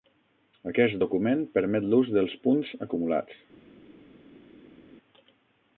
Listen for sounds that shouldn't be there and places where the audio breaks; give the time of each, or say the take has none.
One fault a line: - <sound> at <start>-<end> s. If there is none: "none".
none